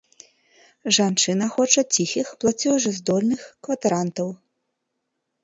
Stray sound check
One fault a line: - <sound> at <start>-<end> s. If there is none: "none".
none